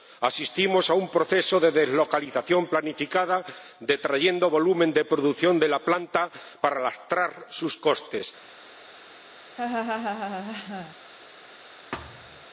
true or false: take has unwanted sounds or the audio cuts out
true